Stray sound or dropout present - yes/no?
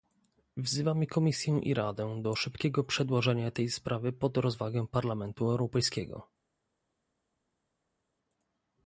no